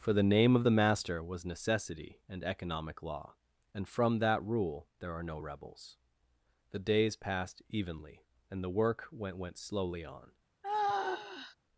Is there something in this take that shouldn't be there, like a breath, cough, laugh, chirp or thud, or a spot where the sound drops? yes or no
yes